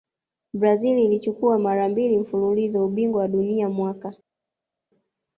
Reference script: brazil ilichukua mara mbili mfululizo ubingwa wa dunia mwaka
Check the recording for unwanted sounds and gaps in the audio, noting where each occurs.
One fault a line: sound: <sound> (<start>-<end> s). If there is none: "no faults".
no faults